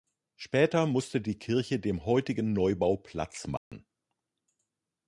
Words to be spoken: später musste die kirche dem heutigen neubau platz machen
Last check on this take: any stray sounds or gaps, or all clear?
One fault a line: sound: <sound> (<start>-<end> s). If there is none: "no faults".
sound: dropout (3.6-3.7 s)